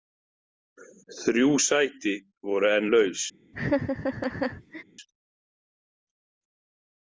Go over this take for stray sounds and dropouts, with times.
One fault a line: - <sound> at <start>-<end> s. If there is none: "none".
- laugh at 3.5-4.8 s